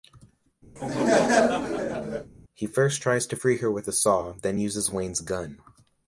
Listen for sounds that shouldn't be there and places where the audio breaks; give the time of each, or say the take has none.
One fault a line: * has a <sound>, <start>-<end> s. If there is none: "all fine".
* has a laugh, 0.8-2.3 s